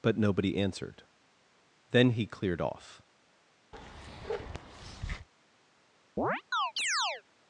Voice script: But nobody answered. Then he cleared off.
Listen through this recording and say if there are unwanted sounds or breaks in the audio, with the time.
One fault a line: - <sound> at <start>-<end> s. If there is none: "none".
- bark at 3.7-5.3 s
- chirp at 6.2-7.2 s